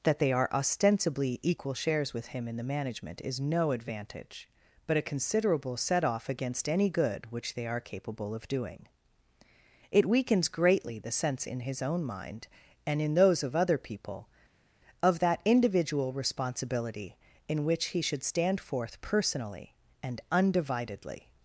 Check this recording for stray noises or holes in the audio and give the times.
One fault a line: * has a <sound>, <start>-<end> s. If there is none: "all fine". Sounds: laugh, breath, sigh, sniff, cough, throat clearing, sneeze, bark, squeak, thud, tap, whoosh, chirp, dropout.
all fine